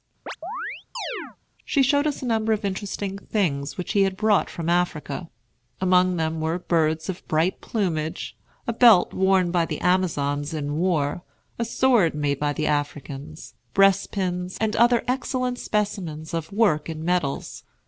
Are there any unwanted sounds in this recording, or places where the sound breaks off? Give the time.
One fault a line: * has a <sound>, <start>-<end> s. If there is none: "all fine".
* has a chirp, 0.3-1.4 s